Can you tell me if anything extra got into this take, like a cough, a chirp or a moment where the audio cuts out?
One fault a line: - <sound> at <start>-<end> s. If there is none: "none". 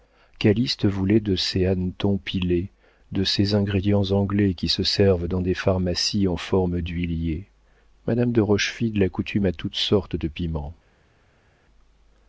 none